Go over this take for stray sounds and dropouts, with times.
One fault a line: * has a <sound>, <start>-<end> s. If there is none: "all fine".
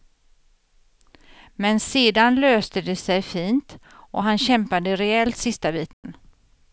* has a dropout, 5.9-6.0 s